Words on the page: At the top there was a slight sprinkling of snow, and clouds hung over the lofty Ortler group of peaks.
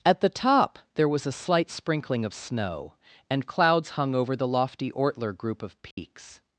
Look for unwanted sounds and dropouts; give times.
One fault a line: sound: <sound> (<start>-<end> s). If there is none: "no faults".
sound: dropout (5.9-6.0 s)